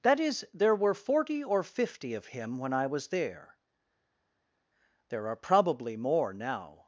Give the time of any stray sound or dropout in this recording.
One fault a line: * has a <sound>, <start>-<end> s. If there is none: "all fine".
all fine